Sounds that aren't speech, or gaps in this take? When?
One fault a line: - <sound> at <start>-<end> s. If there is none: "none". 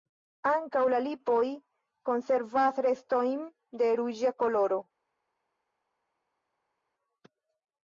none